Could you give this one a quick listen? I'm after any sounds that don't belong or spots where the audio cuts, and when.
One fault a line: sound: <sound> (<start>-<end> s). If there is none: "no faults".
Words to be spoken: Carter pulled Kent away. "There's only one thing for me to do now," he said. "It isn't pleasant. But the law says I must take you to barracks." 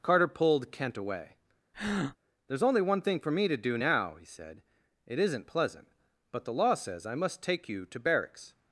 sound: breath (1.7-2.2 s)